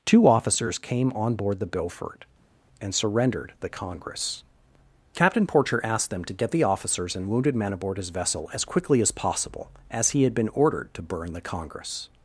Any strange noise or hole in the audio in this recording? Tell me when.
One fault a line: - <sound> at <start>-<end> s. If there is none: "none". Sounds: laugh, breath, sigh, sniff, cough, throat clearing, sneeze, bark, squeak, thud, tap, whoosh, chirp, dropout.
none